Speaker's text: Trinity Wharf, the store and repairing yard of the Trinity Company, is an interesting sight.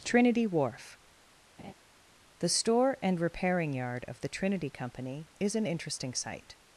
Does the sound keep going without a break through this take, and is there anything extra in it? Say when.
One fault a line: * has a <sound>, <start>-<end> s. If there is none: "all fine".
* has a laugh, 1.6-1.7 s